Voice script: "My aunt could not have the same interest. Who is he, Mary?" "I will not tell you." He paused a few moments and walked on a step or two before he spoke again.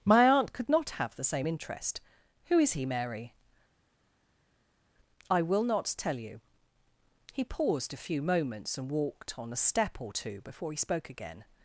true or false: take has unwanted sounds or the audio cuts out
false